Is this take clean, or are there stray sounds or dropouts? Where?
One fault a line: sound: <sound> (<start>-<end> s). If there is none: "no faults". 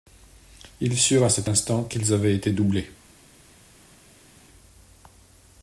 no faults